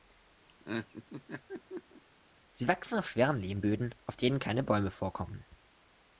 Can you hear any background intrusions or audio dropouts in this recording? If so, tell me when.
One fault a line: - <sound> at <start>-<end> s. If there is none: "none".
- laugh at 0.5-2.0 s